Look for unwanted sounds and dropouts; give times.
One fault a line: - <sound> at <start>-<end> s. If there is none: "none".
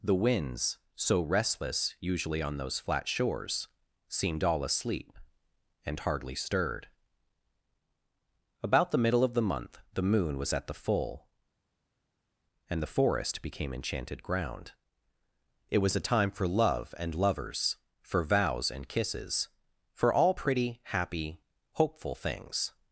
none